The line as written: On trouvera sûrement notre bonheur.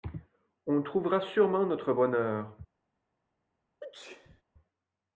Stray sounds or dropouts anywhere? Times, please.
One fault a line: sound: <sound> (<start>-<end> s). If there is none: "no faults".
sound: sneeze (3.8-4.4 s)